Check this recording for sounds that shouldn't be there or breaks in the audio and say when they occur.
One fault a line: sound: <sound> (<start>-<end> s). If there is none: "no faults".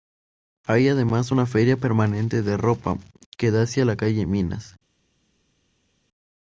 no faults